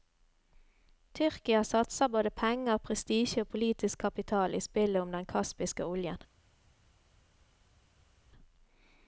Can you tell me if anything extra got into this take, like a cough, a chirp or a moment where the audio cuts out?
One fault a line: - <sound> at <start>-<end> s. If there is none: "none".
none